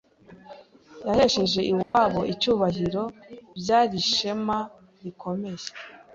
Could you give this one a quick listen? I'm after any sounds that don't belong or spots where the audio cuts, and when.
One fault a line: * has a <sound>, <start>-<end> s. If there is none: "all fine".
* has a dropout, 1.8-1.9 s